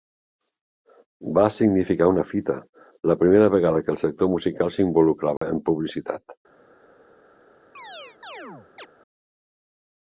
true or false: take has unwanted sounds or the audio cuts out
true